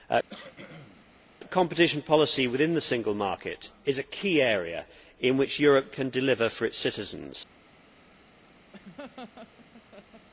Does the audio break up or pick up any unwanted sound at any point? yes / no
yes